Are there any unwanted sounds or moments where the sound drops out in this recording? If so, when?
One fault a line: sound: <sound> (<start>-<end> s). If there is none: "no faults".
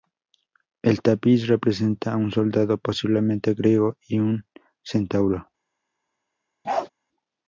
sound: bark (6.6-6.9 s)